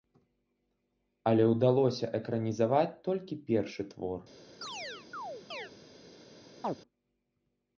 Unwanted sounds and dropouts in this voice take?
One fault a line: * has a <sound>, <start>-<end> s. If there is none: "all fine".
* has a chirp, 4.6-5.7 s
* has a chirp, 6.6-6.8 s